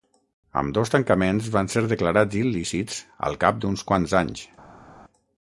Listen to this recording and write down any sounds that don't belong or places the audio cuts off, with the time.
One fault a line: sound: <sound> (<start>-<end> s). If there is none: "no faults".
no faults